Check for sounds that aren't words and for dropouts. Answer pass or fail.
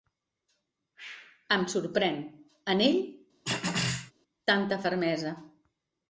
fail